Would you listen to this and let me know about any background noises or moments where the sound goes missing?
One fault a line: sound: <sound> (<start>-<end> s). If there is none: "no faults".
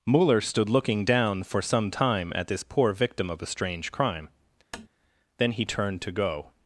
sound: tap (4.7-4.9 s)